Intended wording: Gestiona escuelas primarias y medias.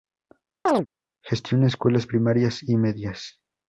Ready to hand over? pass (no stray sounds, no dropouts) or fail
fail